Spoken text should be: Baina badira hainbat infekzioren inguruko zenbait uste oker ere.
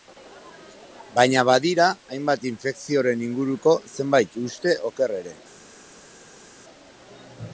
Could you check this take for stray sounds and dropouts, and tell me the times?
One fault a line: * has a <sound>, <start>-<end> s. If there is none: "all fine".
all fine